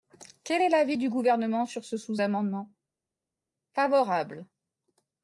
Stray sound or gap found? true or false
false